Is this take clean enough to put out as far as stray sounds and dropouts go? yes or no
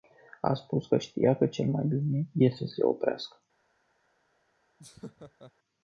no